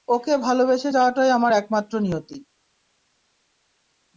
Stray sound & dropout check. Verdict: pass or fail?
pass